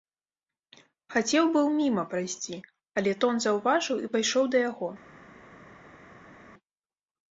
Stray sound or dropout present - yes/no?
no